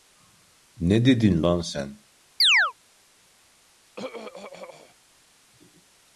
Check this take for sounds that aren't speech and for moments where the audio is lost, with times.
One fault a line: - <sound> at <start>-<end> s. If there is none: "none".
- chirp at 2.4-2.7 s
- throat clearing at 4.0-5.0 s